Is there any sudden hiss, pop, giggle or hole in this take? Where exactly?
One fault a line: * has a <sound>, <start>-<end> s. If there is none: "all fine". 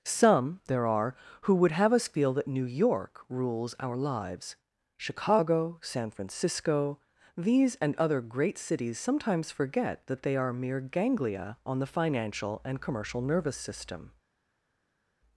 all fine